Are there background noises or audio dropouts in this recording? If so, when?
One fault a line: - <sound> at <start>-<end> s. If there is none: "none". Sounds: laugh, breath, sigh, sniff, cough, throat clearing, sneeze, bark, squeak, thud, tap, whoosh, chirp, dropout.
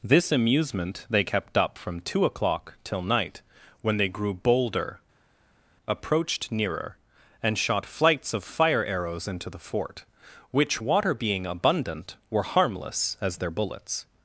none